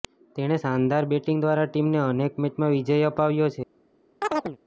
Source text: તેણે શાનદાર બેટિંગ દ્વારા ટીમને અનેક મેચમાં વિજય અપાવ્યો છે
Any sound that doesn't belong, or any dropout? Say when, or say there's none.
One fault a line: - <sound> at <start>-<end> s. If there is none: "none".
- chirp at 4.2-4.6 s